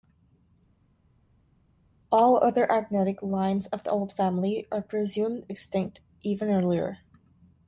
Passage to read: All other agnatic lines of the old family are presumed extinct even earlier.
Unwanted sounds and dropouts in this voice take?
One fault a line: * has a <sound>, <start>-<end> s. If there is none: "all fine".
all fine